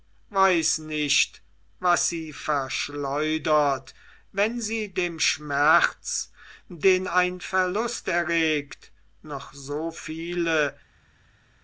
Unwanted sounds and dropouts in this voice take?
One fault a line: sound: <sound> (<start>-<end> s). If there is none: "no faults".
no faults